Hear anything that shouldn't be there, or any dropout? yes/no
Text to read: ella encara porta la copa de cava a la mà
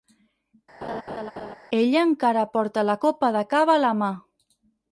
yes